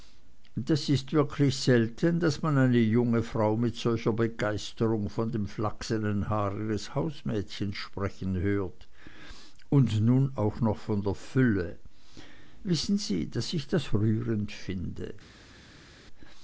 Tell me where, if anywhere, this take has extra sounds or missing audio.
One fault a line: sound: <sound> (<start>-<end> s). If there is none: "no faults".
no faults